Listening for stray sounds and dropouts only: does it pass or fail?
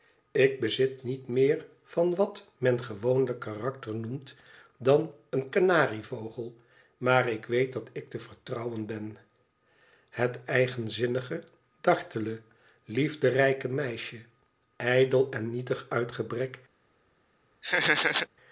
fail